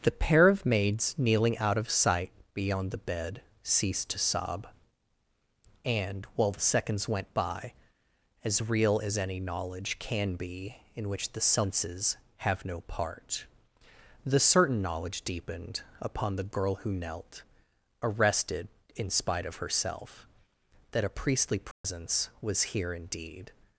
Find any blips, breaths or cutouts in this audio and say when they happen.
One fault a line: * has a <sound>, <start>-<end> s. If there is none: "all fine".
* has a dropout, 21.7-21.8 s